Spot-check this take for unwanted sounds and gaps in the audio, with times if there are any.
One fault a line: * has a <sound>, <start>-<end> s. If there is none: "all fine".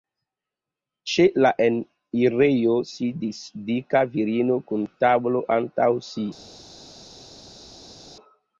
all fine